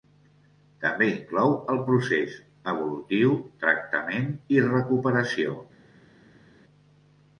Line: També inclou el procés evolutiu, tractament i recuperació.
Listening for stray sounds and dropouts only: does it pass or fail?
pass